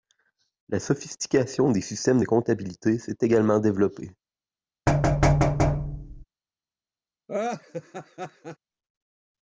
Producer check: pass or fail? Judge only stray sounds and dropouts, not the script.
fail